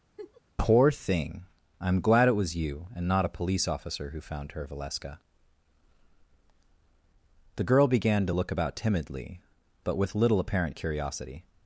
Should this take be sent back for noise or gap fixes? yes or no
yes